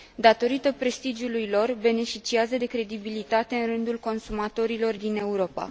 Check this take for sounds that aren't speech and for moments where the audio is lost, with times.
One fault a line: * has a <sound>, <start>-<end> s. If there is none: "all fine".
all fine